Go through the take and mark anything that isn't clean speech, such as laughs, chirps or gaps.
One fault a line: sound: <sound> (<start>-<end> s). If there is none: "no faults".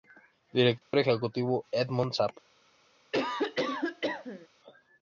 sound: dropout (0.8-0.9 s)
sound: cough (3.1-4.5 s)